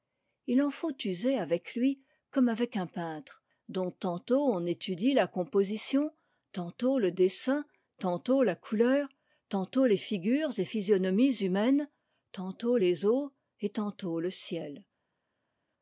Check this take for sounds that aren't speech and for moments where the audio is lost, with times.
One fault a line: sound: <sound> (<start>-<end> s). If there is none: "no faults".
no faults